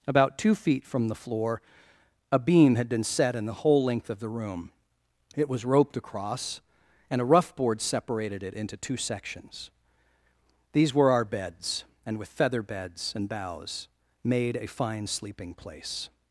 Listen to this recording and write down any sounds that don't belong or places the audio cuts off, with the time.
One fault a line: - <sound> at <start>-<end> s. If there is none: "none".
none